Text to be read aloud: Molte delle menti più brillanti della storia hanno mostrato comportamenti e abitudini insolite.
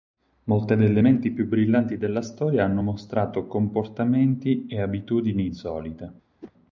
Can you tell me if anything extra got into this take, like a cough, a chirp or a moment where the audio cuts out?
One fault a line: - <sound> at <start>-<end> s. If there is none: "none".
- whoosh at 6.4-6.5 s